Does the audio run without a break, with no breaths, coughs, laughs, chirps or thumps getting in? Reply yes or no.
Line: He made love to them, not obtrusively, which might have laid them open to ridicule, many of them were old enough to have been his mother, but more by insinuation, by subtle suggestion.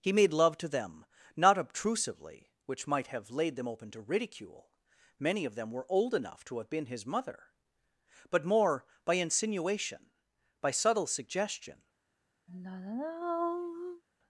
no